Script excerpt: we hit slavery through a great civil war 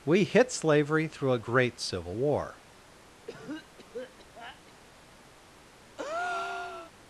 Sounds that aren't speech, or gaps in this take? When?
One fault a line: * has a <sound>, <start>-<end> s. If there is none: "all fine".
* has a cough, 3.3-4.7 s
* has a breath, 6.0-6.9 s